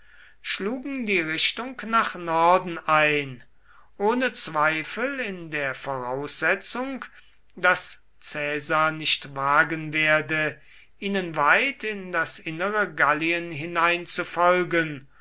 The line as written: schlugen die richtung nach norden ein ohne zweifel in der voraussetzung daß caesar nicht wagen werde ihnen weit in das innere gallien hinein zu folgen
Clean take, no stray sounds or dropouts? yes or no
yes